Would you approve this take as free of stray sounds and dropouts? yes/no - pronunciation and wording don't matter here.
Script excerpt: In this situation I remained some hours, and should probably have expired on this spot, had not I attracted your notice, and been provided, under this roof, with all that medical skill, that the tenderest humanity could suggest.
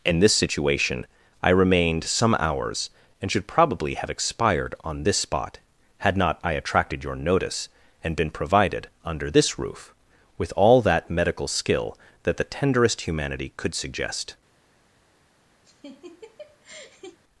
no